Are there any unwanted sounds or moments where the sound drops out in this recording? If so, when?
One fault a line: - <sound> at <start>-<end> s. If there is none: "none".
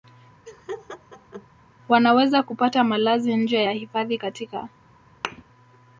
- laugh at 0.5-1.5 s
- thud at 5.2-5.4 s